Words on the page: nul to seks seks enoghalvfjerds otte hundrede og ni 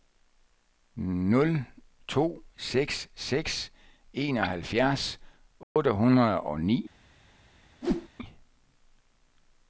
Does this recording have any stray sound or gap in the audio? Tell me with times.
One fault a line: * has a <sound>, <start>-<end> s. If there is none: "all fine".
* has a dropout, 5.6-5.8 s
* has a whoosh, 7.8-8.1 s